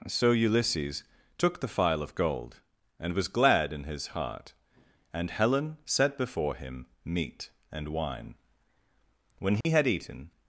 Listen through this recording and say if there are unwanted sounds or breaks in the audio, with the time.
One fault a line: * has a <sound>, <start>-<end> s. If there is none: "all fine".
* has a dropout, 9.6-9.6 s